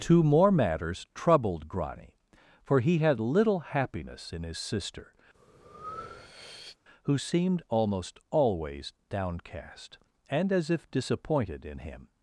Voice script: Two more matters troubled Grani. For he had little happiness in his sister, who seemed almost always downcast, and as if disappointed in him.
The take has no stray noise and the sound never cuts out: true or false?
false